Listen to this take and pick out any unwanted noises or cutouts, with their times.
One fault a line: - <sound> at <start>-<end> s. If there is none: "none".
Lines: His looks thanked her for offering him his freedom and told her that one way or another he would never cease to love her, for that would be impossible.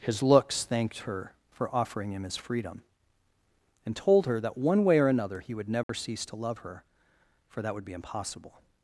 - dropout at 5.8-5.9 s